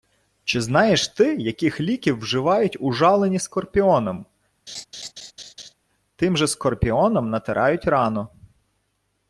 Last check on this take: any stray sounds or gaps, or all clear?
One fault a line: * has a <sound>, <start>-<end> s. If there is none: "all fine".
* has a laugh, 4.7-5.7 s